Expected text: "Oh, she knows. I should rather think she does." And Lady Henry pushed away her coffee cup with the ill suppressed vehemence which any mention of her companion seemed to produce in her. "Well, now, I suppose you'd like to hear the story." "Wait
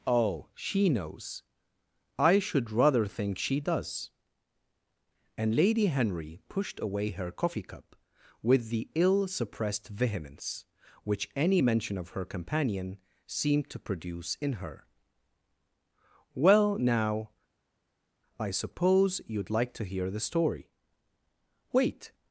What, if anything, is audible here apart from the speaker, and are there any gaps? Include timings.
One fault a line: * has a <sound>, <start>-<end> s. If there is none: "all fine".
all fine